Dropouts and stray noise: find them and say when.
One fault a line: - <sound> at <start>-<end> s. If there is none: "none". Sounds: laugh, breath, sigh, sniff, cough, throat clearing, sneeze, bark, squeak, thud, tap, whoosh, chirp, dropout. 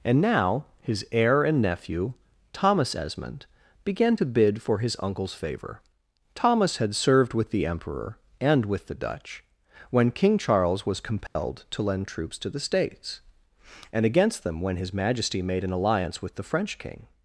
- dropout at 11.3-11.4 s